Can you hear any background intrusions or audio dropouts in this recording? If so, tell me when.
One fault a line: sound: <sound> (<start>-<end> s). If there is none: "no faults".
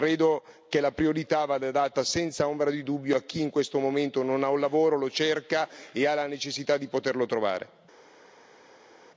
no faults